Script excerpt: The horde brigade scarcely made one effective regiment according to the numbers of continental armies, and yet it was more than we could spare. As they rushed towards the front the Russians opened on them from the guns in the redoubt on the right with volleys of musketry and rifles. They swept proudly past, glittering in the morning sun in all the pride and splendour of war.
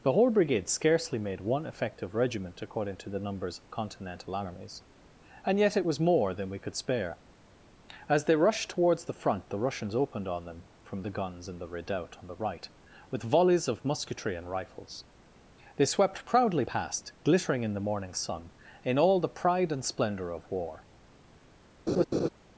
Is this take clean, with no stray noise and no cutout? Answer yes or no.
no